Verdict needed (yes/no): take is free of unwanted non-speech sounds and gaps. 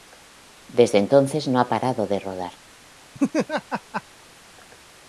no